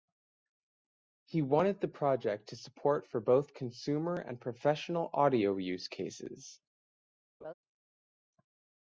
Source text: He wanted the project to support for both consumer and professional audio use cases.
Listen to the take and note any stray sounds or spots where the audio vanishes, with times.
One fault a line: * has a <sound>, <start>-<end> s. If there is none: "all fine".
* has a laugh, 7.4-7.5 s